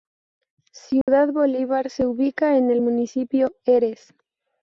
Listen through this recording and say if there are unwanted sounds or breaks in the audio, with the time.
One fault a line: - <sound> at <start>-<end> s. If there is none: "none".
- dropout at 1.0-1.1 s